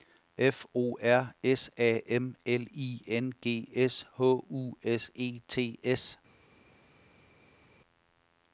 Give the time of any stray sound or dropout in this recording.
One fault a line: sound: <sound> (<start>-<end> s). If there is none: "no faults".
no faults